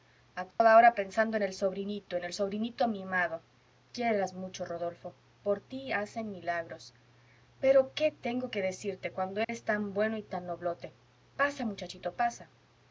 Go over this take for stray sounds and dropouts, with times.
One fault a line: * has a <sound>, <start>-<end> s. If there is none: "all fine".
* has a dropout, 0.5-0.6 s
* has a dropout, 9.4-9.5 s